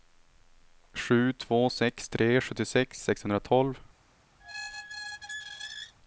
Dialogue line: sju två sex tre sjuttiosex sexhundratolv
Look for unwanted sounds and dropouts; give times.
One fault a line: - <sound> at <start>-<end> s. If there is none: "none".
- squeak at 4.4-6.0 s